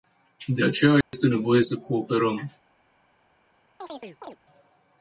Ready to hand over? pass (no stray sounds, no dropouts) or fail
fail